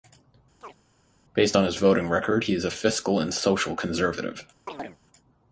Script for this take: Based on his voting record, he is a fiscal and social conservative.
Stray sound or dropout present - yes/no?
yes